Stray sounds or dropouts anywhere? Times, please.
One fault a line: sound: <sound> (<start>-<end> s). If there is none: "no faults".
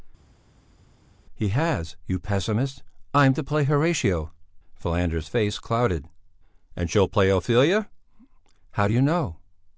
no faults